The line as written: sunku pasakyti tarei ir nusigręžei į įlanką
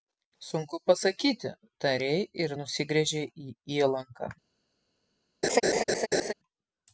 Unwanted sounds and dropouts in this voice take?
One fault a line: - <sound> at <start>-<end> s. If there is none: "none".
- laugh at 5.4-6.3 s